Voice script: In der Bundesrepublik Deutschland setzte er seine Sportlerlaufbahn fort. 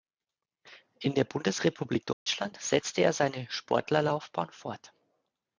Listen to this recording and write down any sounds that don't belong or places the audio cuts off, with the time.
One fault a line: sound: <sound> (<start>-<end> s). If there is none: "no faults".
sound: dropout (2.1-2.3 s)